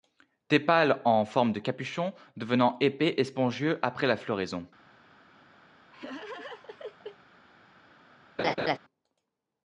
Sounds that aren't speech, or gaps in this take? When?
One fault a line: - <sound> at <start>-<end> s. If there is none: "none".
- laugh at 5.9-7.2 s
- laugh at 8.4-8.8 s